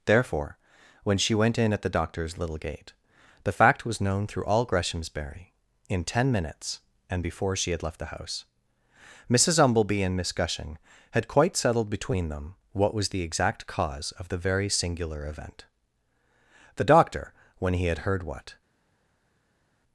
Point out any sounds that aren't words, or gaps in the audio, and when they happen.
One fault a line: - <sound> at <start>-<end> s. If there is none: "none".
none